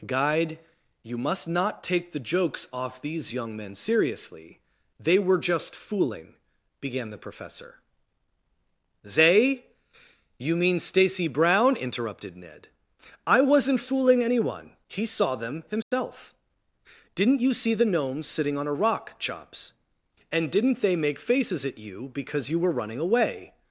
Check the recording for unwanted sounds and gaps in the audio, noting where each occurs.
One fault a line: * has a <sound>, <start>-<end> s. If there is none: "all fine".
* has a dropout, 15.8-15.9 s